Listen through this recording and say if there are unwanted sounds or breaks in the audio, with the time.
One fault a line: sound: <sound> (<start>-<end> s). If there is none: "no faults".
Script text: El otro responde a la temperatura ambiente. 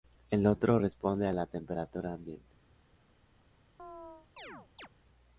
sound: chirp (3.8-4.9 s)